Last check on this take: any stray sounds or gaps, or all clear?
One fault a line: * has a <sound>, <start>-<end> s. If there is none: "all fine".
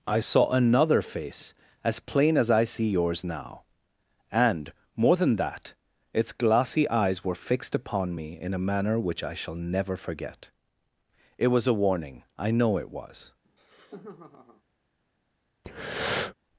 * has a laugh, 13.4-14.6 s
* has a breath, 15.6-16.3 s